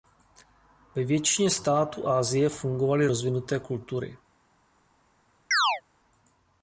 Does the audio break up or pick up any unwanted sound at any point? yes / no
yes